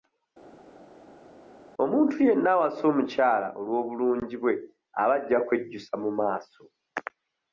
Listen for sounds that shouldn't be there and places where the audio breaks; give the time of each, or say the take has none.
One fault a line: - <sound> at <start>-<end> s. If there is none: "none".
none